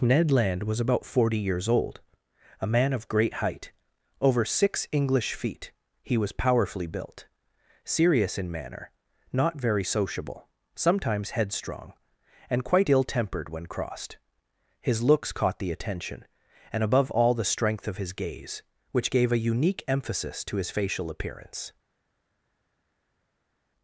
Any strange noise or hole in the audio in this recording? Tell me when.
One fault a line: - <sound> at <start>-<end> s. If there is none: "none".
none